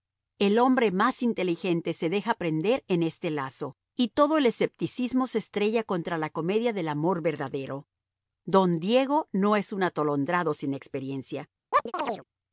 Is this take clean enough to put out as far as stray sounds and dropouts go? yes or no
no